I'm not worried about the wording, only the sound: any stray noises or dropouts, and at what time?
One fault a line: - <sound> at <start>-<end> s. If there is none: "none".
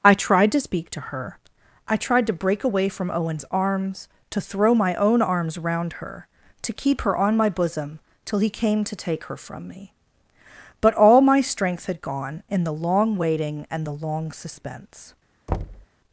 - thud at 15.5-15.9 s